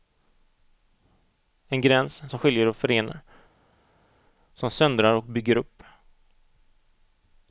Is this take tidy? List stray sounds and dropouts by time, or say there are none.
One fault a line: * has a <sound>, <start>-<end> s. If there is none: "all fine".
all fine